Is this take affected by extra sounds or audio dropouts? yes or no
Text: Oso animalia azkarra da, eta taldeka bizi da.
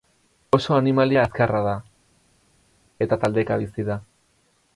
no